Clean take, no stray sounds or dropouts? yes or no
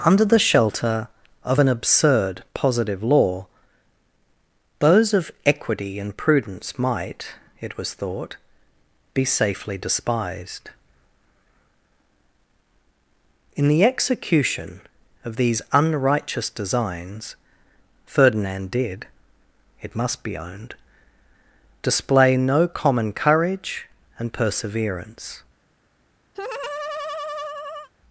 no